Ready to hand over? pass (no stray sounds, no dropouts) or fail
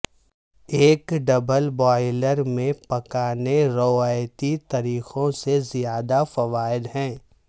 pass